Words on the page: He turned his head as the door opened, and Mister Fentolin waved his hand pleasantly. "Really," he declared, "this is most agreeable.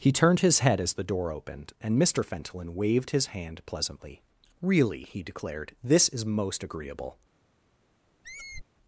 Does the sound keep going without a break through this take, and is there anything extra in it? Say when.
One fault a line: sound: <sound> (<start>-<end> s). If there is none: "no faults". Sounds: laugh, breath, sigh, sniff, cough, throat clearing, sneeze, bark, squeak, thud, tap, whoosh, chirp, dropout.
sound: squeak (8.2-8.6 s)